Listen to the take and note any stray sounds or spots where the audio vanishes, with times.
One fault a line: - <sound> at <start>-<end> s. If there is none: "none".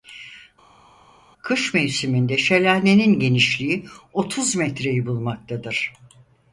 none